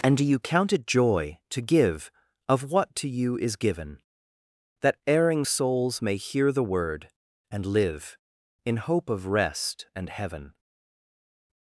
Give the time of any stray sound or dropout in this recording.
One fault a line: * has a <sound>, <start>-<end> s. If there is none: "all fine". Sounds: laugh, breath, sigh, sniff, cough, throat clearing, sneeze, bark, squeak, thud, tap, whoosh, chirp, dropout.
all fine